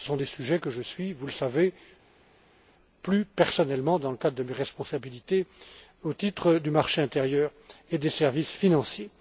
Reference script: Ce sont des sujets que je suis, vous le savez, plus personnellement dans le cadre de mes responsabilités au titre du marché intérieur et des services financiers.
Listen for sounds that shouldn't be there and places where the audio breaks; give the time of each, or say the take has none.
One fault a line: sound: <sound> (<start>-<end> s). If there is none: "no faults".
no faults